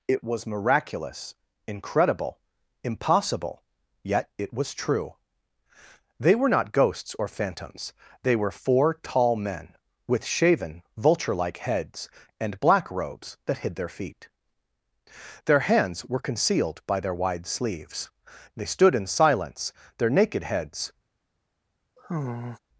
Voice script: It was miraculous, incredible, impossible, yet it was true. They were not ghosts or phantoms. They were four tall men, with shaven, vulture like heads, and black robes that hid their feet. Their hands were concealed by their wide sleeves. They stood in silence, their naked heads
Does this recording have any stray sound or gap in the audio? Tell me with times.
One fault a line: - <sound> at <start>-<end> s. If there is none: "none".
- sigh at 22.0-22.6 s